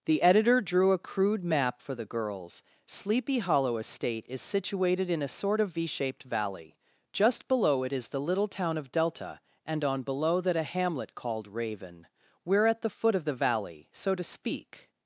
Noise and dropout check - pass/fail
pass